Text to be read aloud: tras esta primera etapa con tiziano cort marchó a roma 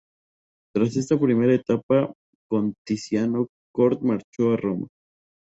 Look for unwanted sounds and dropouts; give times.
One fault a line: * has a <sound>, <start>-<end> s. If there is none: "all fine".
all fine